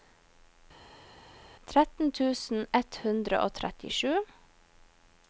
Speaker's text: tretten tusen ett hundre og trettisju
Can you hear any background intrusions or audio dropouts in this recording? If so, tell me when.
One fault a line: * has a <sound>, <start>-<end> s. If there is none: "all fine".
all fine